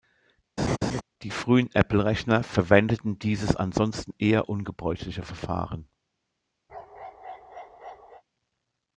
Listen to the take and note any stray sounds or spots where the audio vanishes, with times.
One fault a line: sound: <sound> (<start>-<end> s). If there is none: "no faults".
sound: laugh (0.6-1.0 s)
sound: bark (6.7-8.2 s)